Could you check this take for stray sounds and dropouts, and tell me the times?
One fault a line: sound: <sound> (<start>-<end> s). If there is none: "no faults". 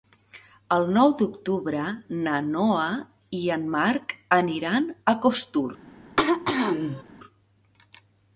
sound: throat clearing (6.2-7.0 s)